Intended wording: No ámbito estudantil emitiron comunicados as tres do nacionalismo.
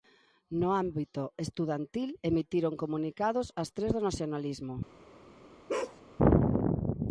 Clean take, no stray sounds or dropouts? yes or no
no